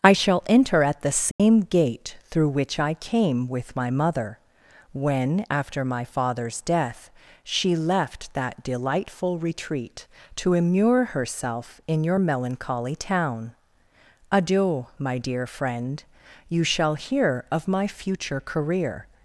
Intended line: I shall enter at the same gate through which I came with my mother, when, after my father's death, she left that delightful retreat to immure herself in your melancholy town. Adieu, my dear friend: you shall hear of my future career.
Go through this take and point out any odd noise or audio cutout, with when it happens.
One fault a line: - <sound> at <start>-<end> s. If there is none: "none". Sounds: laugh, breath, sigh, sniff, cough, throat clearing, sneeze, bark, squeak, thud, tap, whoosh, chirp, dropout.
- dropout at 1.3-1.4 s